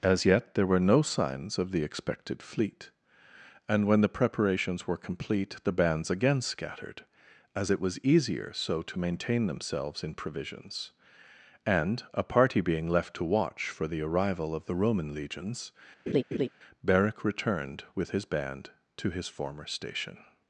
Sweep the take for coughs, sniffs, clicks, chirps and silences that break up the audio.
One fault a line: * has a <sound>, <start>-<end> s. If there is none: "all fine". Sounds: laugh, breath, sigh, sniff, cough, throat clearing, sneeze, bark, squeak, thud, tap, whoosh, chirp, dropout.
* has a laugh, 16.1-16.5 s